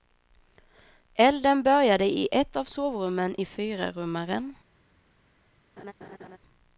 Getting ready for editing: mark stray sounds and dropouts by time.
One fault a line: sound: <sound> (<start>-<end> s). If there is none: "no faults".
sound: laugh (5.8-6.4 s)